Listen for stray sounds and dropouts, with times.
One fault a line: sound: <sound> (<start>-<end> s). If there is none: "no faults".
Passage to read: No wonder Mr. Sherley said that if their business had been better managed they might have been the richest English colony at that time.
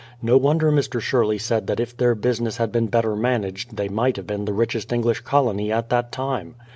no faults